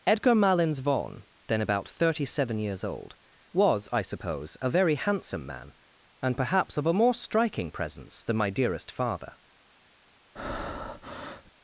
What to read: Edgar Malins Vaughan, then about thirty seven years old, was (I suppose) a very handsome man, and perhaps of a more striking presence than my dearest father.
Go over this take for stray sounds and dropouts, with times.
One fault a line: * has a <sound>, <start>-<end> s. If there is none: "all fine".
* has a breath, 10.4-11.5 s